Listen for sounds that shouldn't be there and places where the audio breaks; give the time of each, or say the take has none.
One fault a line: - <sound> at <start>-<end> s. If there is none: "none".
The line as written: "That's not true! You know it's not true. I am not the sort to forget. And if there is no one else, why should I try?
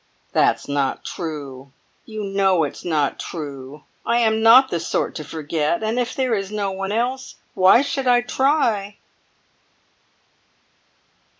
none